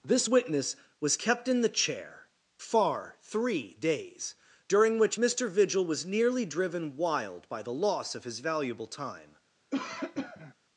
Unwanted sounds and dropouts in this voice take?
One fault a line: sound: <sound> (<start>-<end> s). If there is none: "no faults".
sound: cough (9.7-10.5 s)